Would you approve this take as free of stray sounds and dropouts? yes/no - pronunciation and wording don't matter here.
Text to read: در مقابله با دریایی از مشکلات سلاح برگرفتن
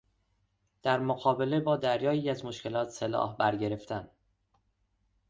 yes